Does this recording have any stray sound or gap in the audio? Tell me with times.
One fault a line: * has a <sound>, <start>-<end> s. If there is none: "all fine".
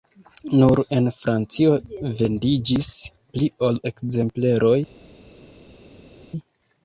all fine